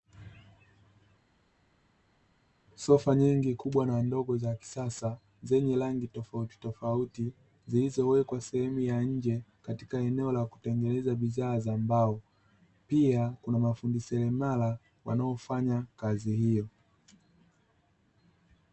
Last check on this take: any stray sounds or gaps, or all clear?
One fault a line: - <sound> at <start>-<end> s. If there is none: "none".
none